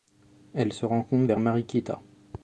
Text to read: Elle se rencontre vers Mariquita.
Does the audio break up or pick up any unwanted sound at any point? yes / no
no